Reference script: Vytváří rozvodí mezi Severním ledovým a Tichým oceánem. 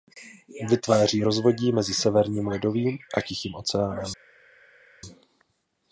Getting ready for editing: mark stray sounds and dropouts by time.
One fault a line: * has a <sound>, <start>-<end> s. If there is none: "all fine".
all fine